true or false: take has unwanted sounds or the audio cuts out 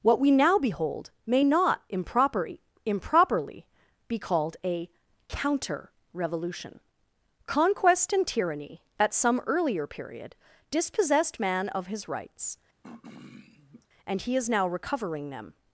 true